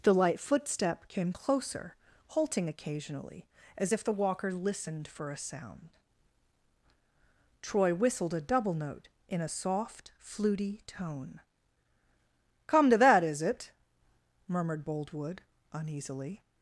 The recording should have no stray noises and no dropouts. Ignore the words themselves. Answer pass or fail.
pass